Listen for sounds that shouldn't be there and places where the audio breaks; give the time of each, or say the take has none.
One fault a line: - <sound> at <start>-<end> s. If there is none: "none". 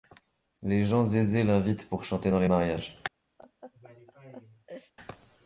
- laugh at 3.4-4.9 s